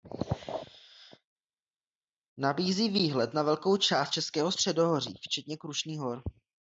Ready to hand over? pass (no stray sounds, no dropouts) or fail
pass